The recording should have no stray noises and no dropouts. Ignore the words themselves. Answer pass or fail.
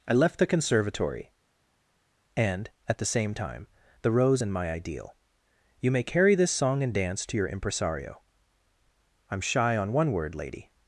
pass